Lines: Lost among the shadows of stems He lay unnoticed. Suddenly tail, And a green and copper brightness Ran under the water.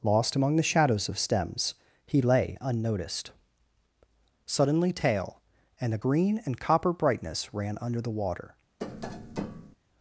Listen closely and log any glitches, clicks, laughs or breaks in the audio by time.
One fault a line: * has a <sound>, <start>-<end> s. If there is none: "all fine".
* has a tap, 8.8-9.8 s